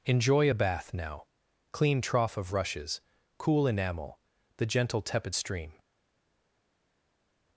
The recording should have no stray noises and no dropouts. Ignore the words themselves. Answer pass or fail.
pass